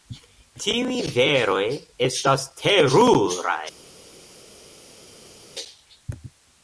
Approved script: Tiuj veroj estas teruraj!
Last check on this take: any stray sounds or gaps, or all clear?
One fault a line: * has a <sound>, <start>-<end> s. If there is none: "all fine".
all fine